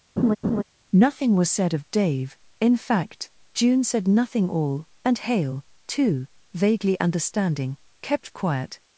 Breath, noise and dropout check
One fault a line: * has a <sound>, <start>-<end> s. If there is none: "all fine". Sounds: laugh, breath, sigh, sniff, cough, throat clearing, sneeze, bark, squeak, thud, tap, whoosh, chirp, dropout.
* has a laugh, 0.2-0.6 s